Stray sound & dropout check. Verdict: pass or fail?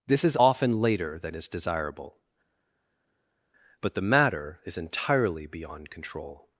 pass